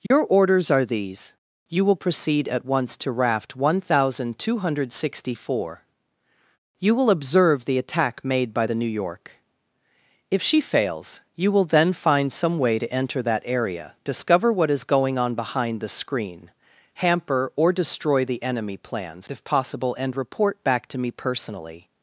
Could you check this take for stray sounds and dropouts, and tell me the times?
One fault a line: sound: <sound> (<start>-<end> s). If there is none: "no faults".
sound: dropout (0.1-0.1 s)